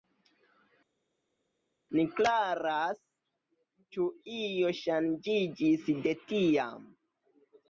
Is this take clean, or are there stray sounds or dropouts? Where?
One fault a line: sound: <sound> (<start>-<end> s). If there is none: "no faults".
no faults